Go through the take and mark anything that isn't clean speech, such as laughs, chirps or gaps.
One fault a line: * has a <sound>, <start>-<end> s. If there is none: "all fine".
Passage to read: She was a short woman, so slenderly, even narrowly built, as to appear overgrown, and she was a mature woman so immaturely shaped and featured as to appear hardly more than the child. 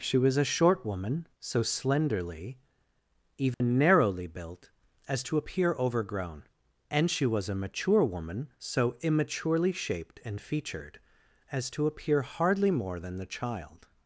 * has a dropout, 3.5-3.6 s